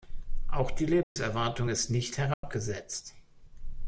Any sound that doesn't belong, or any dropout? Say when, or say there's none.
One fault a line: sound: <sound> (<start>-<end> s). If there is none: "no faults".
sound: dropout (1.0-1.2 s)
sound: dropout (2.3-2.4 s)